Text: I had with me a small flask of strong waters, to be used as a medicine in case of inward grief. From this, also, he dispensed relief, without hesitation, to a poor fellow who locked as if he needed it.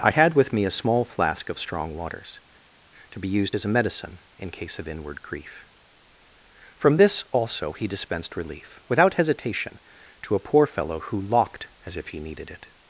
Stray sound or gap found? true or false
false